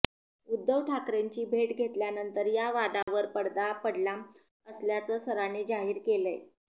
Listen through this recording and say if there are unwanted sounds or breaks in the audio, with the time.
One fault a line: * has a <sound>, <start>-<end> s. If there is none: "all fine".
* has a dropout, 3.0-3.1 s